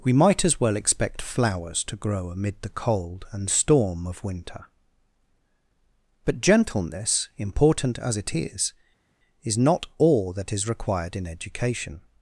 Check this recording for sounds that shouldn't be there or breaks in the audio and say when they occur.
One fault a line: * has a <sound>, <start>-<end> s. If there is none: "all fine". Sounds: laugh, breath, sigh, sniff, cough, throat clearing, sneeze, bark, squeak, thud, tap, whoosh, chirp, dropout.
all fine